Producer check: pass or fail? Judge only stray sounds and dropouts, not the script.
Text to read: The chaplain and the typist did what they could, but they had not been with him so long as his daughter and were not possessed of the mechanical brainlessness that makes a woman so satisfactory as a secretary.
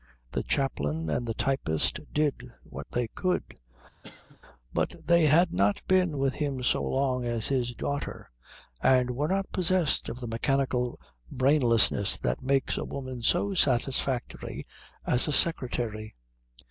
fail